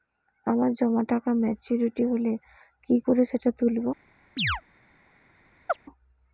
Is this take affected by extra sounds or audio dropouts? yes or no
yes